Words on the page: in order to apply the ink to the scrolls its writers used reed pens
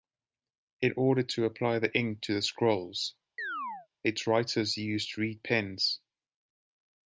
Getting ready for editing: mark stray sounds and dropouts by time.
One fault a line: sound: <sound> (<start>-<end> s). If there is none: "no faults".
sound: chirp (3.4-3.9 s)